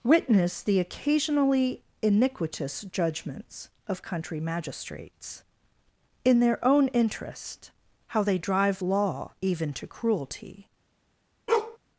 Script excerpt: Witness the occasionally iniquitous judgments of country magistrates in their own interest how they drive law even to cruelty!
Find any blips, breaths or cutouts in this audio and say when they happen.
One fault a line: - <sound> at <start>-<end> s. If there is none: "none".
- bark at 11.5-11.8 s